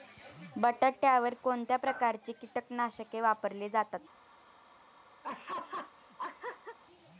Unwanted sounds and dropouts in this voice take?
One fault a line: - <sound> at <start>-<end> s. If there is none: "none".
- laugh at 5.2-6.8 s